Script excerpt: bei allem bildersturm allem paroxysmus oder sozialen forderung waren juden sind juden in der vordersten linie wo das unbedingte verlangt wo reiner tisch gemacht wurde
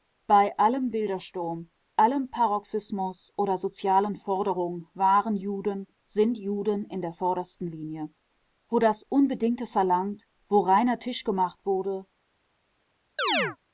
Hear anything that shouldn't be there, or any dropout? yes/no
yes